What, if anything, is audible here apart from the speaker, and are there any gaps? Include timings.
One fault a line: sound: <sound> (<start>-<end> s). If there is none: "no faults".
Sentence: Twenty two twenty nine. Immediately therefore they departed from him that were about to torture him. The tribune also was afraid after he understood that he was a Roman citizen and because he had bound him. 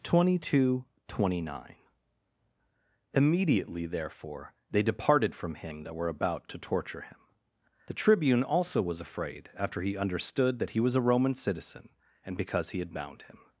no faults